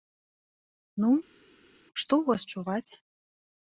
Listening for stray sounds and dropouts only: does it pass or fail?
pass